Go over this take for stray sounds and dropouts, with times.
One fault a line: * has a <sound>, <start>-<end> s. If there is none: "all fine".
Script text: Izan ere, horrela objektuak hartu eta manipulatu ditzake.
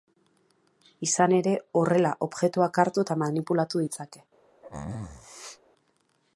* has a sneeze, 4.6-5.6 s